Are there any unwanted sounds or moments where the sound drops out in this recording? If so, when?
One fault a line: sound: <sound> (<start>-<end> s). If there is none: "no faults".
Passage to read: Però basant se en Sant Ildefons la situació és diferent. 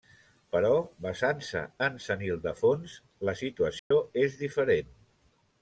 sound: dropout (3.8-3.9 s)